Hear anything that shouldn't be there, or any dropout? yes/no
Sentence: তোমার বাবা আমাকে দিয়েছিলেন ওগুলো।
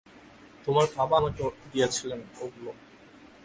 no